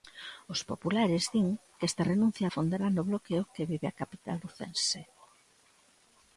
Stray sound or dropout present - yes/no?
no